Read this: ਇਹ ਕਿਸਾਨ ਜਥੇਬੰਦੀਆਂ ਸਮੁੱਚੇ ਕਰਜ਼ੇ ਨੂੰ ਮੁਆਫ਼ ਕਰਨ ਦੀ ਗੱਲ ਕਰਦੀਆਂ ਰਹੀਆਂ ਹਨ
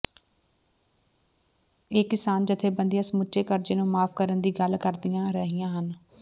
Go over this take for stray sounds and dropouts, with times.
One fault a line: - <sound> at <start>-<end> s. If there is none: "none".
none